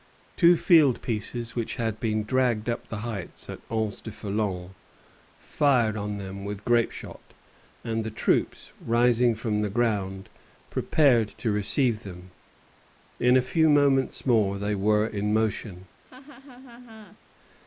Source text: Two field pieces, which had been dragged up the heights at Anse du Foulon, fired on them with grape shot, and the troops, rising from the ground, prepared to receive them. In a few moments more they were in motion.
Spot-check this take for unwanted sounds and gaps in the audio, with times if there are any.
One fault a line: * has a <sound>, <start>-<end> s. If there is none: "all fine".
* has a laugh, 16.0-17.2 s